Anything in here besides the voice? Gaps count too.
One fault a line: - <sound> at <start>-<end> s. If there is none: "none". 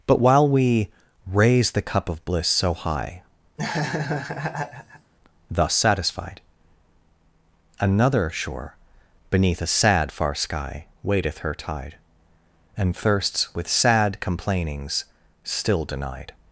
- laugh at 3.6-5.1 s